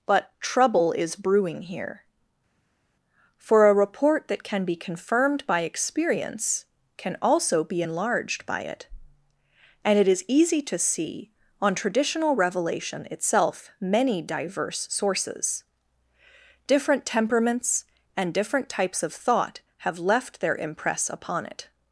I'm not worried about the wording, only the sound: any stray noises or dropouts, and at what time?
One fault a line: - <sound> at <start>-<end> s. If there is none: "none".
none